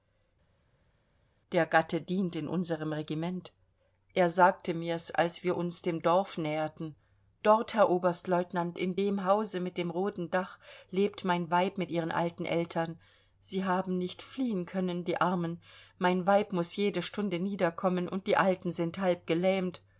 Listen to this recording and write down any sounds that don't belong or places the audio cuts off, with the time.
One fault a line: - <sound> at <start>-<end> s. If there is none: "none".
none